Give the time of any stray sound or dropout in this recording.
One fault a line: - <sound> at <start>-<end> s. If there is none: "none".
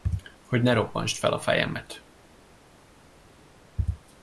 none